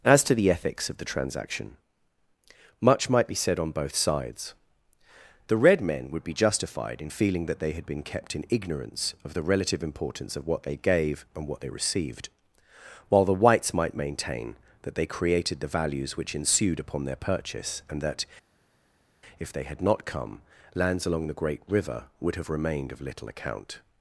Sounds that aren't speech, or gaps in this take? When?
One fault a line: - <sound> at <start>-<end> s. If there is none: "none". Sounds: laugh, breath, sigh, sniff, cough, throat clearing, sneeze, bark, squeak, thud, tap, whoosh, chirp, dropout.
none